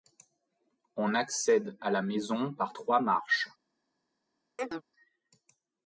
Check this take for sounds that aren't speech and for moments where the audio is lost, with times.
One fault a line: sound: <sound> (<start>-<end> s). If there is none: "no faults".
sound: chirp (4.6-4.8 s)